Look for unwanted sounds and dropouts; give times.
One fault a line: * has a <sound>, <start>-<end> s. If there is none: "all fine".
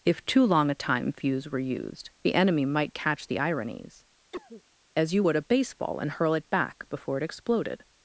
* has a cough, 4.3-4.6 s